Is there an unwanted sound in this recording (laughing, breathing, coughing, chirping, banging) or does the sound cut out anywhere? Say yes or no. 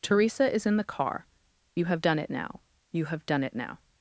no